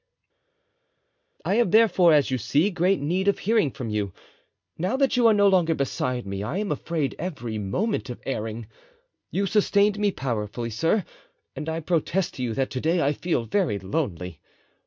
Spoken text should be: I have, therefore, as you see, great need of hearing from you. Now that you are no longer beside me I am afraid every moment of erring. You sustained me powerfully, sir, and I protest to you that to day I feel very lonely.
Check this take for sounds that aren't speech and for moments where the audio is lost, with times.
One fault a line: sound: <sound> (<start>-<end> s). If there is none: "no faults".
no faults